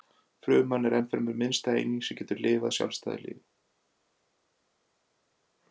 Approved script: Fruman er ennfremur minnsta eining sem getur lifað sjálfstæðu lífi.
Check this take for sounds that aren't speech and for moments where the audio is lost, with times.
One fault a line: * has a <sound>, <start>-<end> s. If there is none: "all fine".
all fine